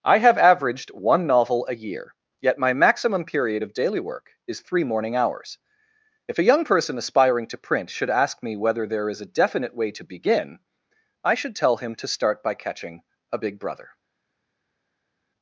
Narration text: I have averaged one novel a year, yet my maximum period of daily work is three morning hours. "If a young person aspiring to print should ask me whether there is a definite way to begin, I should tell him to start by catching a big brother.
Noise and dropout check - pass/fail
pass